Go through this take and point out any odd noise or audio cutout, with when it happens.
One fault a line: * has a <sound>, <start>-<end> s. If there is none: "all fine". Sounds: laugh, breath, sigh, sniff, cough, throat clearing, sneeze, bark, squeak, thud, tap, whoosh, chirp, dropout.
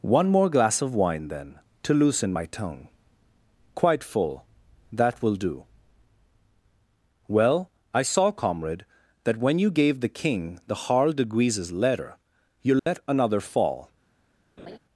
* has a dropout, 12.8-12.9 s
* has a laugh, 14.6-14.8 s